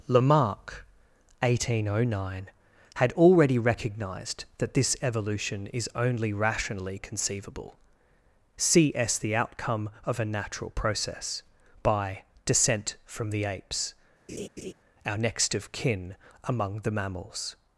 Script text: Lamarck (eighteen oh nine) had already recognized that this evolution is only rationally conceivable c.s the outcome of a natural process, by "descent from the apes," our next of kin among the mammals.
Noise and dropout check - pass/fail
fail